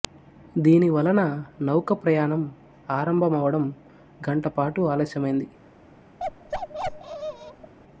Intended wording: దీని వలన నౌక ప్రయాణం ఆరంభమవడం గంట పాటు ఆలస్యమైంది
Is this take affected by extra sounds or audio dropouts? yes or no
yes